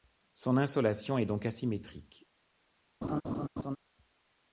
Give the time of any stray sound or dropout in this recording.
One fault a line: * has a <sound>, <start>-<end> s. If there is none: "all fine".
* has a laugh, 3.0-3.8 s